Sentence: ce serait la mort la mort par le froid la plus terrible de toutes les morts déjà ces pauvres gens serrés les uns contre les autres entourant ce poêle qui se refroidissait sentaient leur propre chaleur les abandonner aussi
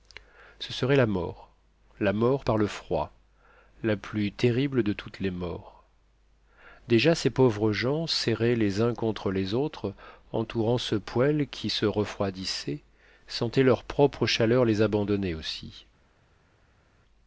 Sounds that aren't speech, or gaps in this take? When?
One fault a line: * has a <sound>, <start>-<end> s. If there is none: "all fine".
all fine